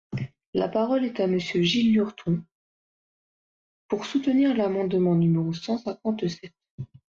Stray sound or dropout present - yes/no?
no